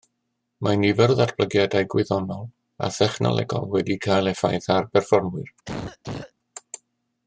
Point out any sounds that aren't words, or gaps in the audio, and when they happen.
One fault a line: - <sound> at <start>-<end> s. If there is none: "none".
- cough at 5.7-6.3 s